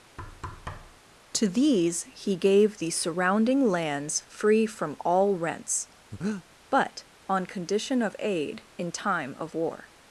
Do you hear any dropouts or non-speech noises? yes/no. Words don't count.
yes